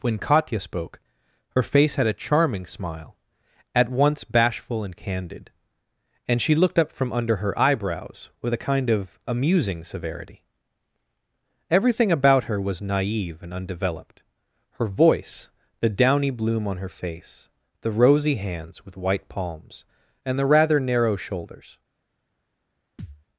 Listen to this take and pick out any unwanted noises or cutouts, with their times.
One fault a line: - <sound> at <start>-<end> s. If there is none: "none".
- thud at 23.0-23.2 s